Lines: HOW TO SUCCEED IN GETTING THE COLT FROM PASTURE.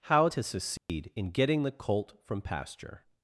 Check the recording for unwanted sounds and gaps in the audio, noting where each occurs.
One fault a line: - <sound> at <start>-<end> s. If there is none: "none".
- dropout at 0.8-0.9 s